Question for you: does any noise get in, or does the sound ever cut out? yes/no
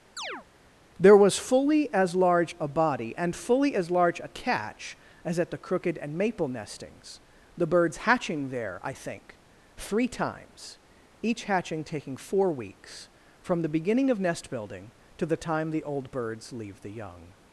yes